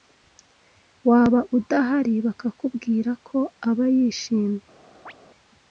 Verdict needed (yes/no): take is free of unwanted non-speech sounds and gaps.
no